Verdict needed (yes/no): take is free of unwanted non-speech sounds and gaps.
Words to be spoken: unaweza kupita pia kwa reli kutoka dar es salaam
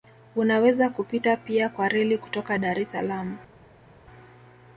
yes